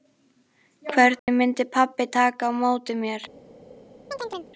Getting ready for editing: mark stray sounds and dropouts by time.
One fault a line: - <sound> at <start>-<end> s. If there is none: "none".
- dropout at 1.2-1.3 s
- chirp at 4.1-4.5 s